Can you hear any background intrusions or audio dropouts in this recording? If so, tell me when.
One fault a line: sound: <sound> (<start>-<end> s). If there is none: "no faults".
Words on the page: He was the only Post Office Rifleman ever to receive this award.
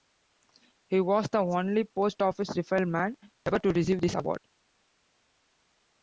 no faults